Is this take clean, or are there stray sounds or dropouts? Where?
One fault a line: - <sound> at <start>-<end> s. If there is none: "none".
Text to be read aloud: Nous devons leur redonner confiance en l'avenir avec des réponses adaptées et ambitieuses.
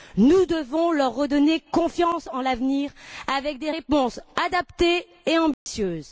- dropout at 5.5-5.7 s